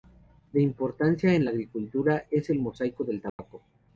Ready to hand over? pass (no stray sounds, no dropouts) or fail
fail